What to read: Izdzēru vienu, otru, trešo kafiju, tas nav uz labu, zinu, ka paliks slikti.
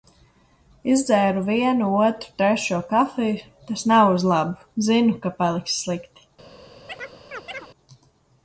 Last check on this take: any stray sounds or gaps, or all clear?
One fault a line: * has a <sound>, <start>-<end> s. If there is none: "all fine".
* has a chirp, 6.9-7.7 s